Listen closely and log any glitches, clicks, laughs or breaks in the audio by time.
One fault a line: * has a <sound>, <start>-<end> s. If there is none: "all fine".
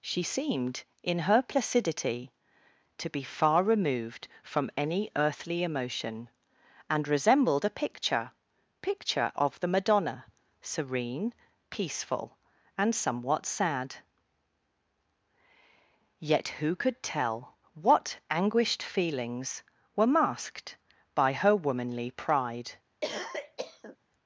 * has a cough, 23.0-24.0 s